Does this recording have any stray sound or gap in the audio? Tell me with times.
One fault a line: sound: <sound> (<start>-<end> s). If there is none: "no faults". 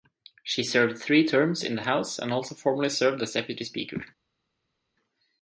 no faults